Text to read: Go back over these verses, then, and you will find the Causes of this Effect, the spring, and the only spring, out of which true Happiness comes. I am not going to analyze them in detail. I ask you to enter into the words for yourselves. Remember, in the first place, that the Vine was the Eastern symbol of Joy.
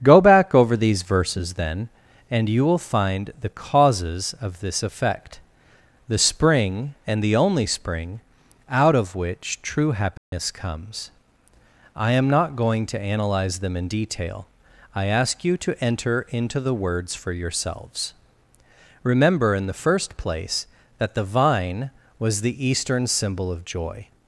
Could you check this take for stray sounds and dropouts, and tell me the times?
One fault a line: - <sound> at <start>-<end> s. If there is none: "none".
- dropout at 10.2-10.3 s